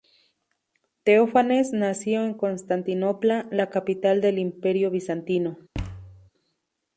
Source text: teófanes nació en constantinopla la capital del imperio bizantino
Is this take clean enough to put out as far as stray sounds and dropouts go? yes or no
no